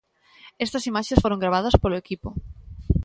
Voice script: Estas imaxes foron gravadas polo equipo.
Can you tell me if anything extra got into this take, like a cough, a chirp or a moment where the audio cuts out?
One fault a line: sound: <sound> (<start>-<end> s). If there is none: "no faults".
no faults